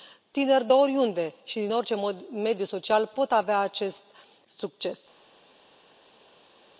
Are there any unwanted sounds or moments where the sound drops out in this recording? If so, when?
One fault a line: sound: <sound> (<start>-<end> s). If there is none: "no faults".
no faults